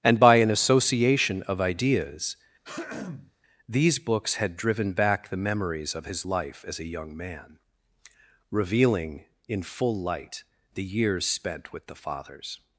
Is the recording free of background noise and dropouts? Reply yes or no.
no